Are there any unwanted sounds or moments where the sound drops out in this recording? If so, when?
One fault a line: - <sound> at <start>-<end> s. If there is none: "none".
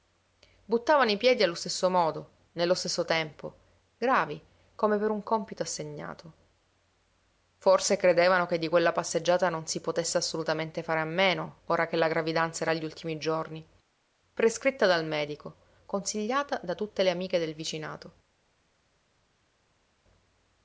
none